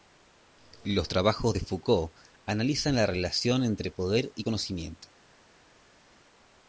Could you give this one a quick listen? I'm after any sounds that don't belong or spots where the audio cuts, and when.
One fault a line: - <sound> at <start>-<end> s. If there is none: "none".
none